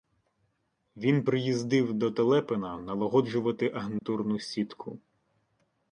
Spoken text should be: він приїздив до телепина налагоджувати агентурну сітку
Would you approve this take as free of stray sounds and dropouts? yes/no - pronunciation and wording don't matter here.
no